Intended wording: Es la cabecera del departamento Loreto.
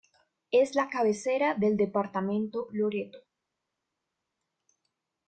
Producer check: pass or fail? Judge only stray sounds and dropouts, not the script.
pass